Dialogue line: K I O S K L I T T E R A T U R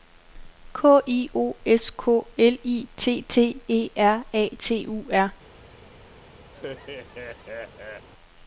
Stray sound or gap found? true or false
true